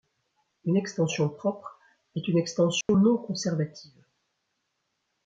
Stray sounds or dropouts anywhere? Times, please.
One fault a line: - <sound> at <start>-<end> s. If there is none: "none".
- dropout at 2.8-2.9 s